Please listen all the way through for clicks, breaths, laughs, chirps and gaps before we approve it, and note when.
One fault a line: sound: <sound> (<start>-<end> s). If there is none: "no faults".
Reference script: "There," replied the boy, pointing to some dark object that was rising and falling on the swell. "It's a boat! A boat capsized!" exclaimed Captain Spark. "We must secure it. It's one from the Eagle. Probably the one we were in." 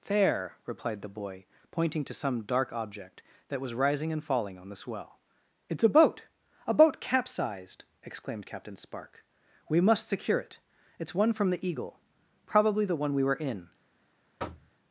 sound: thud (14.4-14.7 s)